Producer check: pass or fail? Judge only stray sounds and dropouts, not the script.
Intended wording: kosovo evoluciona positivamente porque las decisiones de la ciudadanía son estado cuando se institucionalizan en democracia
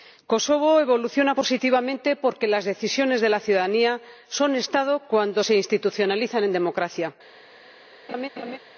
fail